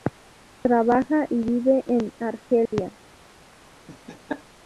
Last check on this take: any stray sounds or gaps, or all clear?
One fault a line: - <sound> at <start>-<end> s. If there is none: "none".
- dropout at 2.7-2.7 s
- laugh at 3.9-4.4 s